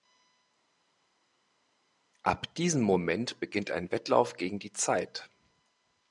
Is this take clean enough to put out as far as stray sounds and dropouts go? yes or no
yes